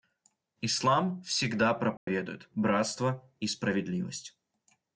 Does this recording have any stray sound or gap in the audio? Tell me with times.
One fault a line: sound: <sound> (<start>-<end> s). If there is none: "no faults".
sound: dropout (2.0-2.1 s)